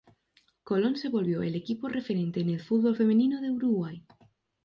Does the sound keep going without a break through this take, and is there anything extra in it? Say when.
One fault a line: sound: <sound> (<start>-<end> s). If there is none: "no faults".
no faults